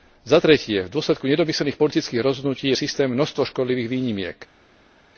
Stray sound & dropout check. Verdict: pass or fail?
pass